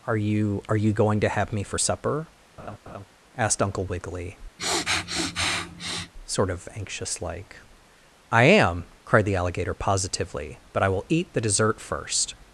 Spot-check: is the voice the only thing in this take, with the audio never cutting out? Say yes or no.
no